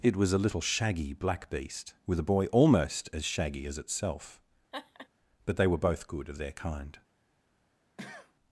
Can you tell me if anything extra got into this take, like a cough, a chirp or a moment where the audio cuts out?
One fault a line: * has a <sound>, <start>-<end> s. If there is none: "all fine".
* has a laugh, 4.7-5.1 s
* has a cough, 8.0-8.3 s